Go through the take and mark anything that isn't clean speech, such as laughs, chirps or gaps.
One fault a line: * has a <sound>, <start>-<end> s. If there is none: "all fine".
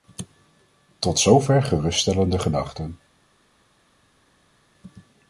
all fine